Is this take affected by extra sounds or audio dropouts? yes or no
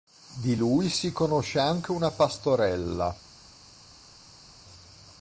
no